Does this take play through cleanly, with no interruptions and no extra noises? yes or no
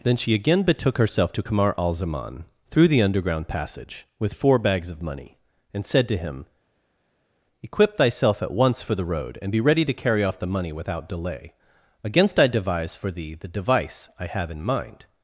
yes